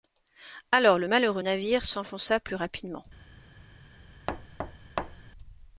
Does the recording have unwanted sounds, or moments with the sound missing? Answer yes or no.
yes